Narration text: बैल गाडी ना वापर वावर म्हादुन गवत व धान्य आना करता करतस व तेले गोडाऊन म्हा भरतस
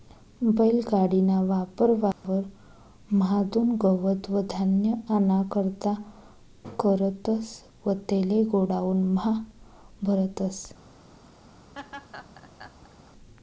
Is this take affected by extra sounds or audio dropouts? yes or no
yes